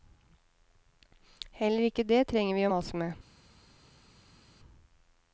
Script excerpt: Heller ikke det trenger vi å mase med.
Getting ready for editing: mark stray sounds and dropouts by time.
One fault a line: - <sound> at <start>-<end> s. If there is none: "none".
none